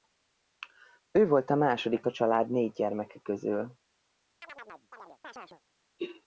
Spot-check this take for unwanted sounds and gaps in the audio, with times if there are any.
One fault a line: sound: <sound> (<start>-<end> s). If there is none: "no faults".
sound: chirp (4.4-5.6 s)